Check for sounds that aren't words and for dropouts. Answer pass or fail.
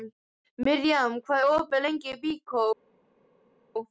pass